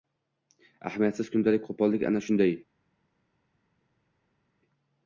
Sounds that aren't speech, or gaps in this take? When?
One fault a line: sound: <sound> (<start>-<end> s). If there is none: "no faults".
no faults